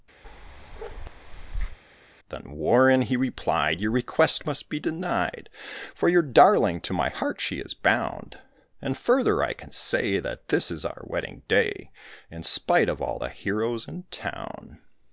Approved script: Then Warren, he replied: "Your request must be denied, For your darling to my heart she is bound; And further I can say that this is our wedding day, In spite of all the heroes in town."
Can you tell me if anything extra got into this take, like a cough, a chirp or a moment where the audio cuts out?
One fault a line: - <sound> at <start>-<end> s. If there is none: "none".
- bark at 0.2-1.8 s